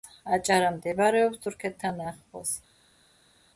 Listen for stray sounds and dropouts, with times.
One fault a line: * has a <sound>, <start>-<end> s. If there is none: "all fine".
all fine